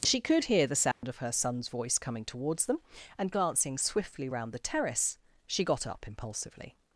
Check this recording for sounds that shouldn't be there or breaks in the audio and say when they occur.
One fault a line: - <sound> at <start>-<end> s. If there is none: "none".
- dropout at 0.9-1.0 s